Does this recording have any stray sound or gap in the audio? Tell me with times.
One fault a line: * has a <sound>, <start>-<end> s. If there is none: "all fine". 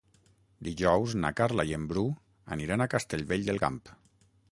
all fine